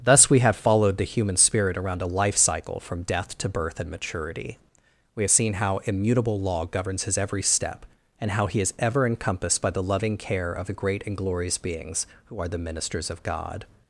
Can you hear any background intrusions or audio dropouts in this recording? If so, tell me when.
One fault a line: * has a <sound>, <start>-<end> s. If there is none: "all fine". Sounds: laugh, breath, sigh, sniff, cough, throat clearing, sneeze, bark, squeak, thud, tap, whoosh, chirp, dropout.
all fine